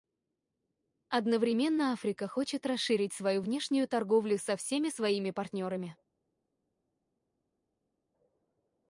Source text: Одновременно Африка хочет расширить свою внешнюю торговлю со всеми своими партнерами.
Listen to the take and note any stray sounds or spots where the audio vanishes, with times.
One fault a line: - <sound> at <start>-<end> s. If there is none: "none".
none